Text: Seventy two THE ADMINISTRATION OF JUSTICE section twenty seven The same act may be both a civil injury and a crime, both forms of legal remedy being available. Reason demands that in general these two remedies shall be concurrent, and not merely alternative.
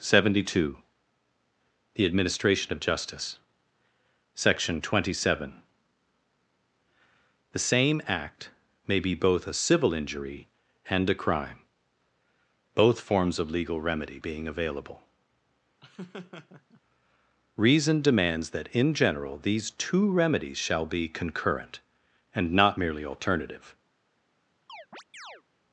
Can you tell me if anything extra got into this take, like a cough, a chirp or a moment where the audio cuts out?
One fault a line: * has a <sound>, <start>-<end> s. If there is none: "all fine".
* has a laugh, 15.8-16.8 s
* has a chirp, 24.7-25.4 s